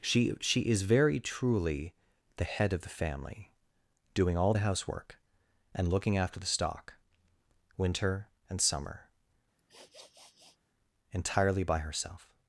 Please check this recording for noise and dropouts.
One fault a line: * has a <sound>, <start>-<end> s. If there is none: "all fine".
* has a sniff, 9.6-10.6 s